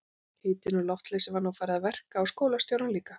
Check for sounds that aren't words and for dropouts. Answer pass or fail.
pass